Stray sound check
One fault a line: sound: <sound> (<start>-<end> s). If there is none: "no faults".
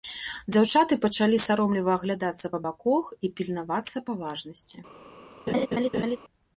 sound: laugh (5.5-6.2 s)